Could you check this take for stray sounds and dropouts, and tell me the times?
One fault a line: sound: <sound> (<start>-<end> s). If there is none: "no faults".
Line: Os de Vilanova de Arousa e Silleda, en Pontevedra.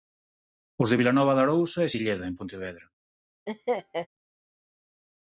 sound: laugh (3.5-4.1 s)